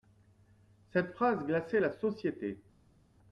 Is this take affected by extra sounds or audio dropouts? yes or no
no